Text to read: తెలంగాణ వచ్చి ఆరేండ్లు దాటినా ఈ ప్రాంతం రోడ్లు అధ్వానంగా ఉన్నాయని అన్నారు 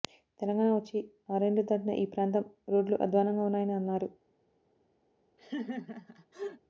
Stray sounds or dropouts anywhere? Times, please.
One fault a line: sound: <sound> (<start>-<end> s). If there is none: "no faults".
sound: laugh (5.4-6.6 s)